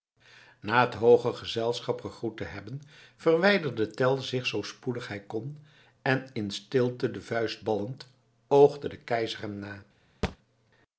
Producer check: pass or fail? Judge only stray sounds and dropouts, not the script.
fail